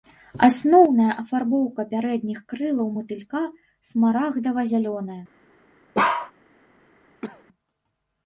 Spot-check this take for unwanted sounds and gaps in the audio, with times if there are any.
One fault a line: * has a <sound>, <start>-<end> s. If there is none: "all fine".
* has a bark, 5.9-6.3 s
* has a cough, 7.2-7.4 s